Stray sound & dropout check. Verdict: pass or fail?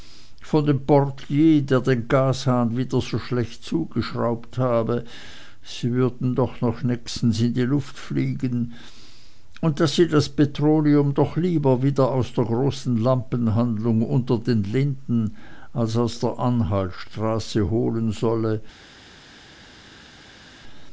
pass